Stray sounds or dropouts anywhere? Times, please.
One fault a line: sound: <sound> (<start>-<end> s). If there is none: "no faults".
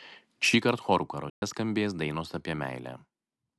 sound: dropout (1.3-1.4 s)